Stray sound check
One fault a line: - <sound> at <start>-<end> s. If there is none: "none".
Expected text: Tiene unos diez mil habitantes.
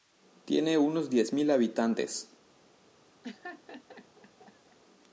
- laugh at 3.2-4.8 s